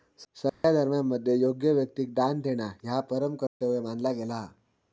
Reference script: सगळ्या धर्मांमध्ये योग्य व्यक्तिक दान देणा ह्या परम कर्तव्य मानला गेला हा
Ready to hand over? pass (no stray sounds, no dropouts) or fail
fail